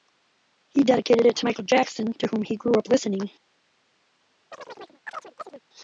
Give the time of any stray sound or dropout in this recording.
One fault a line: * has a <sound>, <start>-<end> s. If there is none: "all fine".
* has a chirp, 4.5-5.6 s